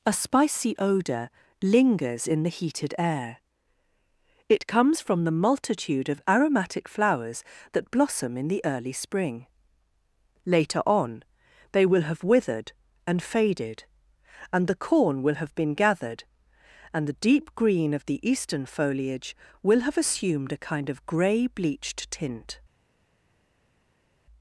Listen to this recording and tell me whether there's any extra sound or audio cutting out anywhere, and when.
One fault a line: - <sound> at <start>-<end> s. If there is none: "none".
none